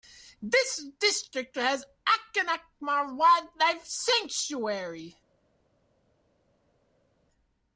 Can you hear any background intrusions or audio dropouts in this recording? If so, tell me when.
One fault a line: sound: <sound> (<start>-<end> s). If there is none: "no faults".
no faults